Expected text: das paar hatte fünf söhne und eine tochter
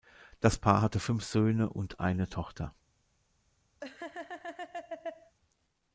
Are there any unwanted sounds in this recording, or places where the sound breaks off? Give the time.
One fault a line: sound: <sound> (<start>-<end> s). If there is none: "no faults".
sound: laugh (3.8-5.4 s)